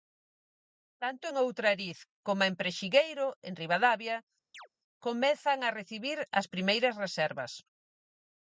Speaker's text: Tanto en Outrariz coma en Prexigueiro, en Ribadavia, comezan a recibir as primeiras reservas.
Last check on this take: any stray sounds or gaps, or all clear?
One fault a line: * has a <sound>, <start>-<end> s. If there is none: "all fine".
* has a chirp, 4.5-4.7 s